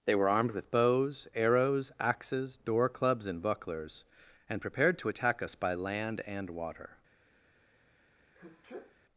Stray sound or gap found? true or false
true